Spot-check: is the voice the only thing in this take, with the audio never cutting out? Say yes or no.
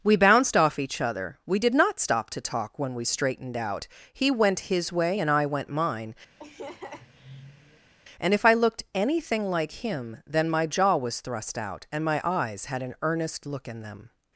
no